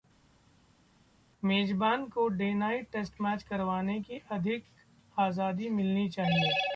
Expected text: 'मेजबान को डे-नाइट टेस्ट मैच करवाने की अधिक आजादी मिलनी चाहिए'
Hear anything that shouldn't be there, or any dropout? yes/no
no